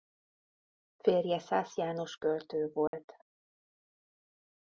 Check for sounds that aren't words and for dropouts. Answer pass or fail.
fail